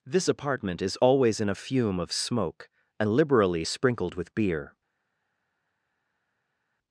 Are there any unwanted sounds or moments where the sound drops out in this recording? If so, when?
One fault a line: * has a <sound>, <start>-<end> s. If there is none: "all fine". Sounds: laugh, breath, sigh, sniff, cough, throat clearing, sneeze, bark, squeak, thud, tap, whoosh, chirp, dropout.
all fine